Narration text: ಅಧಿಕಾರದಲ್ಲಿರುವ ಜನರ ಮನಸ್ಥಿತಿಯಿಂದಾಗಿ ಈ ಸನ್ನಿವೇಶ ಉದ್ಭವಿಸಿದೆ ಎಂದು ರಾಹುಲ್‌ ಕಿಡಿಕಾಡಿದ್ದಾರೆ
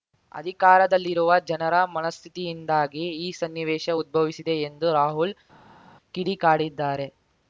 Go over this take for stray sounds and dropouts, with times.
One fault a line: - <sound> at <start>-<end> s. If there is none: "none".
none